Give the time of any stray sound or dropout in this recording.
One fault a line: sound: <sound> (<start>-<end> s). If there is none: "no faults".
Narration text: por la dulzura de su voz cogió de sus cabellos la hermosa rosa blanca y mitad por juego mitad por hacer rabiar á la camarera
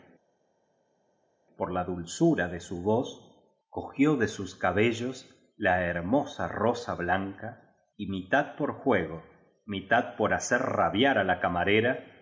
no faults